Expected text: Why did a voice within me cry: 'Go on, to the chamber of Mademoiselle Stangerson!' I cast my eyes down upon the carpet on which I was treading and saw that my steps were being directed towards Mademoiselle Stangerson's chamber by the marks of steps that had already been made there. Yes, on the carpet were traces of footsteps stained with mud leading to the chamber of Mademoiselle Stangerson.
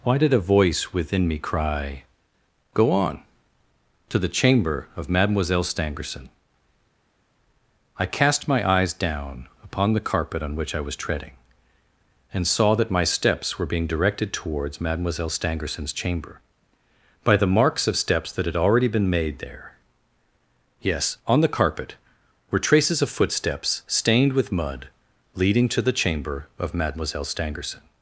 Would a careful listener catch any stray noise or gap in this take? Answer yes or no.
no